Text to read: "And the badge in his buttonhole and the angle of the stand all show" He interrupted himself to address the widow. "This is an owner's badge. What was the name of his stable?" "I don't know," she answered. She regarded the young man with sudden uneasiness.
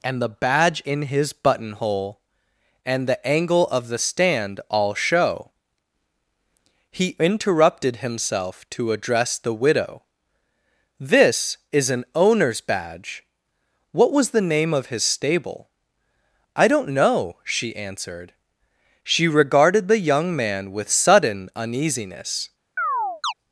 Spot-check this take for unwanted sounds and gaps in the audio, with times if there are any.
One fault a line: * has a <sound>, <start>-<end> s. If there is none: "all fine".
* has a chirp, 22.8-23.3 s